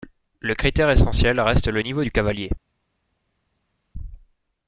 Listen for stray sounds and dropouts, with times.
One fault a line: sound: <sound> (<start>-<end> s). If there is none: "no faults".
no faults